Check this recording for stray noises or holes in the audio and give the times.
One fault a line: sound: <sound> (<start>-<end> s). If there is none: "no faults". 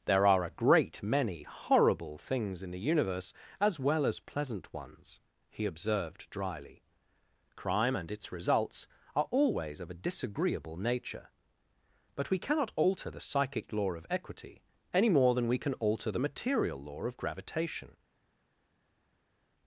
no faults